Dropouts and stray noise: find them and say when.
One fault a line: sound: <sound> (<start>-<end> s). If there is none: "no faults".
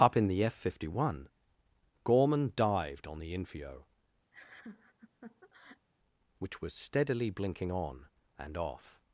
sound: laugh (4.3-5.9 s)